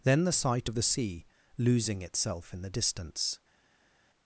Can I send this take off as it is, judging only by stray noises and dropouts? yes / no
yes